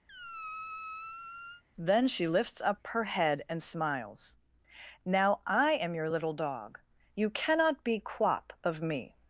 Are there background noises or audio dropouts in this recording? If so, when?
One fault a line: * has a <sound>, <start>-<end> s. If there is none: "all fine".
* has a squeak, 0.1-1.6 s